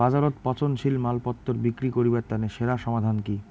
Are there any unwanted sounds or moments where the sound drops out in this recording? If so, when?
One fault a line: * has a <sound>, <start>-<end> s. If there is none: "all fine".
all fine